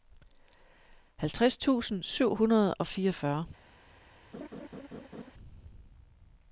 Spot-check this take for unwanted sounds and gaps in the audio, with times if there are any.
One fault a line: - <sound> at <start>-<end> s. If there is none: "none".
- laugh at 4.3-5.3 s